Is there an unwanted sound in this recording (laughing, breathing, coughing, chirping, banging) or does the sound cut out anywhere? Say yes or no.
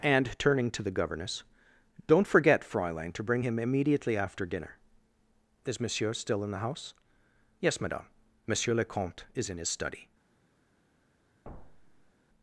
yes